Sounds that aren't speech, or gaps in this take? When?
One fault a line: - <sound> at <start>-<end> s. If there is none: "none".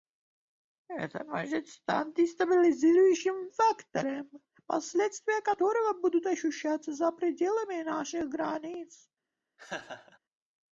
- laugh at 9.6-10.2 s